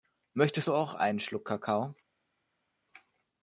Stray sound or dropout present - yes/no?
no